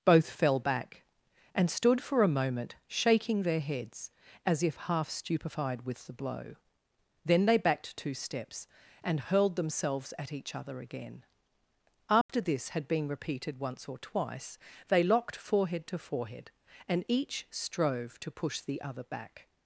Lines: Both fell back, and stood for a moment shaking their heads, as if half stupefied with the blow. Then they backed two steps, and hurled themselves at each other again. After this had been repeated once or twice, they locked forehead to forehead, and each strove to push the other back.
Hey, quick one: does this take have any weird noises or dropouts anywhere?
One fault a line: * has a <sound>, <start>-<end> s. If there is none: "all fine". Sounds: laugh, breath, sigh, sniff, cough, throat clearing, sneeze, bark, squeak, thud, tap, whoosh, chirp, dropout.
* has a dropout, 12.2-12.3 s